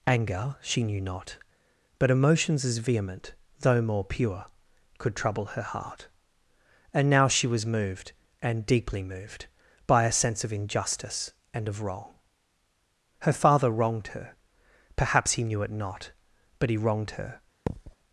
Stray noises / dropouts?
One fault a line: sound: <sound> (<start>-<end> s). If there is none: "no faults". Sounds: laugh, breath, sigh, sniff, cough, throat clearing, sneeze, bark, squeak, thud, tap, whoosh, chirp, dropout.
sound: thud (17.7-18.0 s)